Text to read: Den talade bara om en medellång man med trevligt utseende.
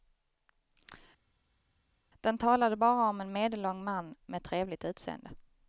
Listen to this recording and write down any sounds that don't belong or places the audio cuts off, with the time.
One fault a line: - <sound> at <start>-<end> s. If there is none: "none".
none